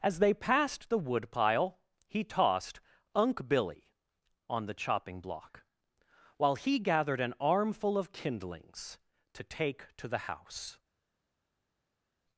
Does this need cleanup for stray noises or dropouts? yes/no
no